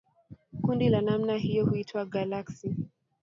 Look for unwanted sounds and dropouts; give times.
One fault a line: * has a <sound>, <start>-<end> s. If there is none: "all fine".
all fine